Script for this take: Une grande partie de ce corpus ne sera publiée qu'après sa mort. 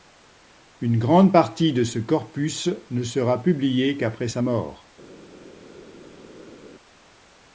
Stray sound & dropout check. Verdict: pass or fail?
pass